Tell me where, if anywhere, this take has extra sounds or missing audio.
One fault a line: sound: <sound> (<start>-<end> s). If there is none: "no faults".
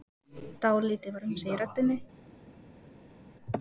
no faults